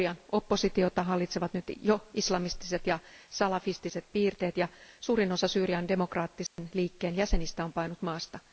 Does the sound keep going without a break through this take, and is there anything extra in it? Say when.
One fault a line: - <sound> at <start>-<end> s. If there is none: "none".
- dropout at 6.5-6.6 s